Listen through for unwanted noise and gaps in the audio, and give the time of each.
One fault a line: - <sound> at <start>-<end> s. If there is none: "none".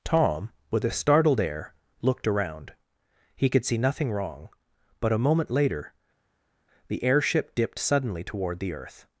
none